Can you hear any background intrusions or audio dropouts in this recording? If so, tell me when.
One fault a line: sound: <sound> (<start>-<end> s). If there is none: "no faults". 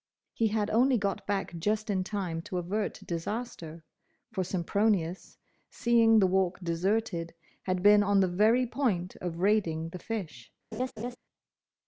sound: laugh (10.7-11.2 s)